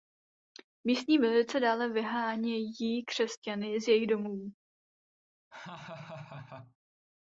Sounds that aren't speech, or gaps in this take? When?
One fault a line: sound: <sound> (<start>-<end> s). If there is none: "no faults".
sound: laugh (5.5-6.8 s)